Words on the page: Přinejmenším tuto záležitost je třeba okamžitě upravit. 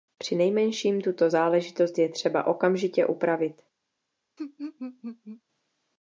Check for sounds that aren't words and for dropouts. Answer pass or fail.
fail